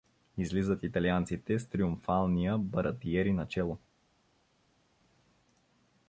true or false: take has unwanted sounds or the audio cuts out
false